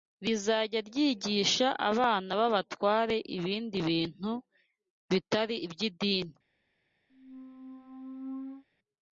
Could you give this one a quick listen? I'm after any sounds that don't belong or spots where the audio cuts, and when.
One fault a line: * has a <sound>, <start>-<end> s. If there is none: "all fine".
* has a squeak, 7.1-8.6 s